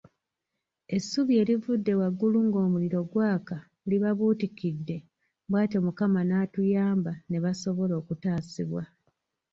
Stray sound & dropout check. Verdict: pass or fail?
pass